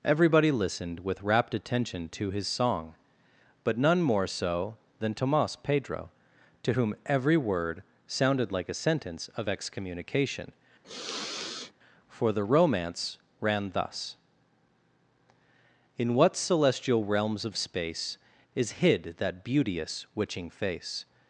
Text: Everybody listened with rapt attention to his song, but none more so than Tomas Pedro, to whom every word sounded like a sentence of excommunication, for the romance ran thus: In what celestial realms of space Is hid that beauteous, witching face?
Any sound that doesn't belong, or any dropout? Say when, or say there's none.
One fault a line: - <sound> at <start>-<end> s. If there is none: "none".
- sniff at 10.8-11.7 s